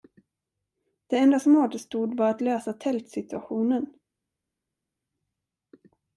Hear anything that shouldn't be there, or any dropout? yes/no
no